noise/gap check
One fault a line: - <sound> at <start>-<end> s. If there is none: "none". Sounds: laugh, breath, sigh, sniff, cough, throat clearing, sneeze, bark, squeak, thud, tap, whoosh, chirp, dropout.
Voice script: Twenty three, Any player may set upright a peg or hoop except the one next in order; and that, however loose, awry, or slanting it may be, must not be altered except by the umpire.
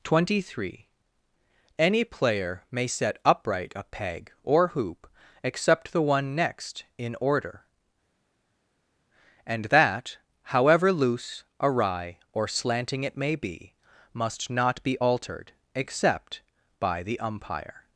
none